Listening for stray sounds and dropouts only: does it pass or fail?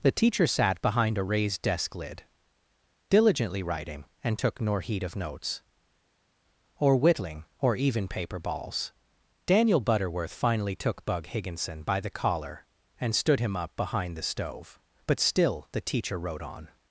pass